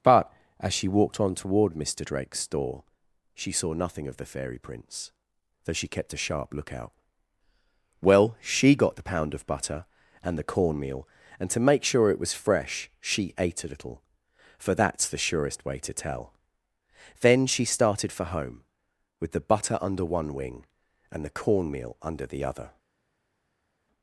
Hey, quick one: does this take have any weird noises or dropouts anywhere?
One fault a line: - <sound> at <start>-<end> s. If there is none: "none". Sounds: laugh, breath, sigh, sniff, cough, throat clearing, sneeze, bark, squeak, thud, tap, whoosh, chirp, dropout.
none